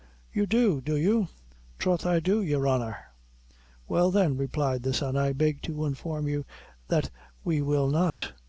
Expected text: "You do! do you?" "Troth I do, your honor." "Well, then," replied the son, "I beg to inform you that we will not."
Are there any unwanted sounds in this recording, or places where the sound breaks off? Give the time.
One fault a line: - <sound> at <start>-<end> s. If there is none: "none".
- dropout at 8.1-8.2 s